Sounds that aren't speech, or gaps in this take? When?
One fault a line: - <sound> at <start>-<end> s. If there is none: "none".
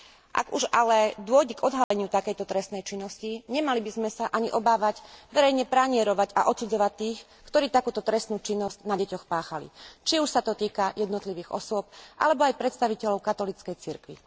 - dropout at 1.8-1.9 s